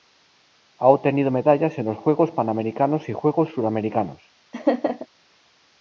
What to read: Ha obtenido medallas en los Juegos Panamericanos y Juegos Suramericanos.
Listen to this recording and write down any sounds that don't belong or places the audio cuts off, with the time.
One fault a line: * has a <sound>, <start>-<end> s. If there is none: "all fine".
* has a laugh, 4.5-5.1 s